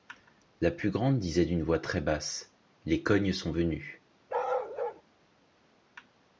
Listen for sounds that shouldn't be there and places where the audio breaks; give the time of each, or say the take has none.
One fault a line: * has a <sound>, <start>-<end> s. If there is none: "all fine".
* has a bark, 4.3-5.0 s